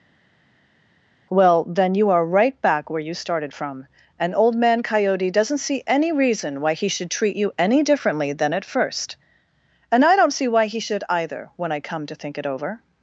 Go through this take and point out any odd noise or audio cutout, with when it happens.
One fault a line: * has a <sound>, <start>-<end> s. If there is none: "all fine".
all fine